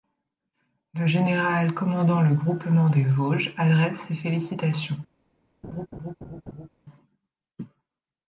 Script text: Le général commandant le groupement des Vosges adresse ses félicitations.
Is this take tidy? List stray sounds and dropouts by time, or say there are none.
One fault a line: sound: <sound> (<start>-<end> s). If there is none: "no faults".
sound: laugh (5.6-6.7 s)